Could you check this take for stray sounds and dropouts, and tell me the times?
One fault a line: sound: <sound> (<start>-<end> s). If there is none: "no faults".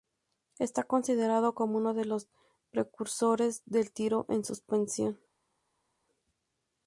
no faults